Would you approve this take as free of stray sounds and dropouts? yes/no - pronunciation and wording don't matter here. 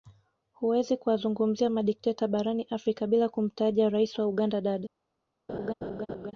no